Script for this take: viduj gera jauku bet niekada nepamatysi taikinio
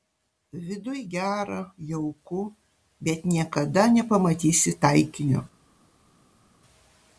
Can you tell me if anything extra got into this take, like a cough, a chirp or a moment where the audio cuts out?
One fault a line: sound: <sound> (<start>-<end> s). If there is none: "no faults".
no faults